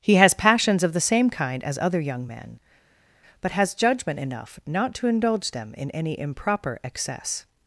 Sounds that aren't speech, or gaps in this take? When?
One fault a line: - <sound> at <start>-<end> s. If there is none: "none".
none